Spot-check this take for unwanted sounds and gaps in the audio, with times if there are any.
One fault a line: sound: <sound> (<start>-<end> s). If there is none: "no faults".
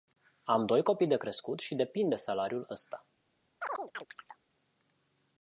sound: chirp (3.6-4.4 s)